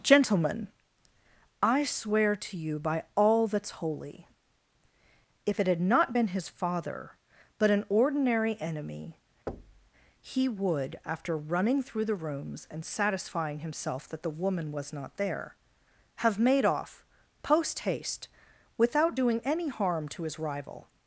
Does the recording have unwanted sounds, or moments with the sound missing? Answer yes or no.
yes